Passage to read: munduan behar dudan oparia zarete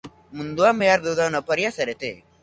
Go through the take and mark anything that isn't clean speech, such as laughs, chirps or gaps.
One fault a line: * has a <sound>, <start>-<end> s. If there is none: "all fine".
all fine